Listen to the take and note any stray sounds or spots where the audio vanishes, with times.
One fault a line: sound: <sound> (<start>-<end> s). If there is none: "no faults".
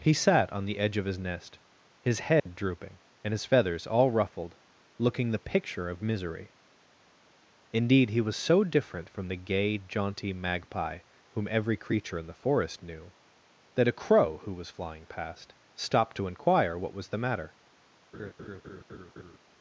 sound: dropout (2.4-2.5 s)
sound: laugh (18.1-19.4 s)